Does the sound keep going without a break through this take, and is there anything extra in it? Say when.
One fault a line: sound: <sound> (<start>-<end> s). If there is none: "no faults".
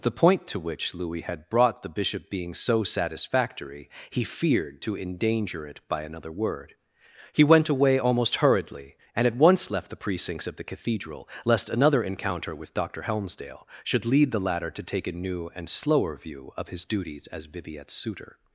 no faults